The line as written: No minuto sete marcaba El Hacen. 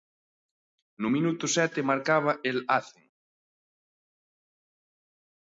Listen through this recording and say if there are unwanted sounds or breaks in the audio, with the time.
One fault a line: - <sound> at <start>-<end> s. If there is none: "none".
none